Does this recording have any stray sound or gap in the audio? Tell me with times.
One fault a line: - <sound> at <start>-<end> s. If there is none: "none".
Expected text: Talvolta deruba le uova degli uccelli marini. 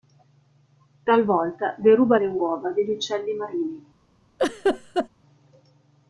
- laugh at 4.4-5.1 s